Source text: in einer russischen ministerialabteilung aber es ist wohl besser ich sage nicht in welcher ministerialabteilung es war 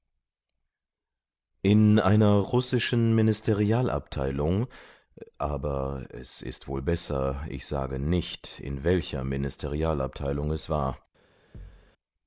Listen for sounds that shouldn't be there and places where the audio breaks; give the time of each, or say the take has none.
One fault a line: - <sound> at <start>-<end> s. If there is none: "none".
- thud at 11.5-11.9 s